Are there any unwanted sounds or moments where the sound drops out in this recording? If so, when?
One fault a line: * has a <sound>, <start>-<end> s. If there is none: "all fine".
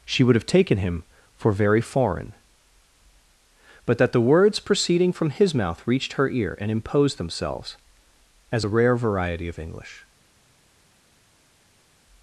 all fine